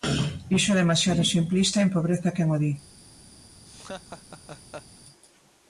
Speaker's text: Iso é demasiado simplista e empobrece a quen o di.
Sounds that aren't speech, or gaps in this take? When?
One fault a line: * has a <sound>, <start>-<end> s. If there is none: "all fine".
* has a laugh, 3.6-4.9 s